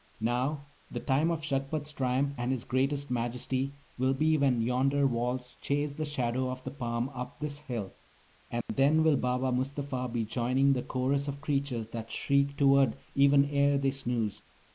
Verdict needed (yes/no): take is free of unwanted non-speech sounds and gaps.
no